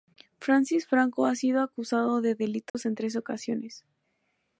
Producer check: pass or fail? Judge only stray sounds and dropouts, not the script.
fail